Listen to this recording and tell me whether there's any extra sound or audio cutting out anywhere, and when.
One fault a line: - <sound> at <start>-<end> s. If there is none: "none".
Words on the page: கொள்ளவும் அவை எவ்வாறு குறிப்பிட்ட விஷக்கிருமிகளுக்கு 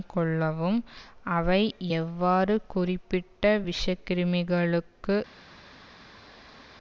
none